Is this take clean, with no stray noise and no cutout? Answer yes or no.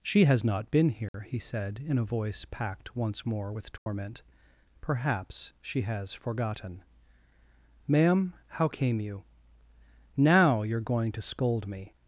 no